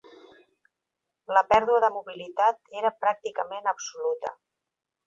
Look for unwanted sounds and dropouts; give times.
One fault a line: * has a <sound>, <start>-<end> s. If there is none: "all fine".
all fine